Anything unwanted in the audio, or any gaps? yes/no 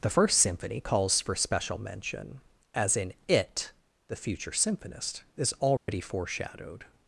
yes